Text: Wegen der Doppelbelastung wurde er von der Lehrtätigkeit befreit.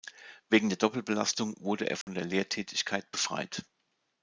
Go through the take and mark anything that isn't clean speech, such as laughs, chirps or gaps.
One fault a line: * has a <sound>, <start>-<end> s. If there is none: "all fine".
* has a dropout, 2.0-2.1 s